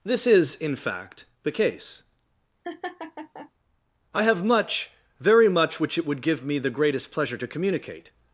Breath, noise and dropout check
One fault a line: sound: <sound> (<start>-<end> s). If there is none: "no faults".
sound: laugh (2.6-3.5 s)